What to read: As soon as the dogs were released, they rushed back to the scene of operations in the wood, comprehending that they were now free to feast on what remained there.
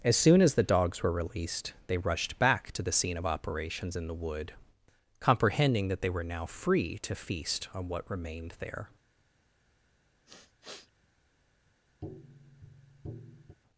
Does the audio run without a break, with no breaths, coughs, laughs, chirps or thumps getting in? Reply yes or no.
no